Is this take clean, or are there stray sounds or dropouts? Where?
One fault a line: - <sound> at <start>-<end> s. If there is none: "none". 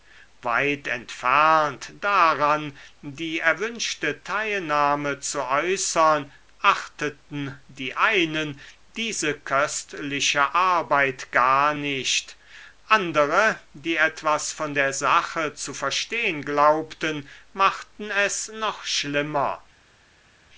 none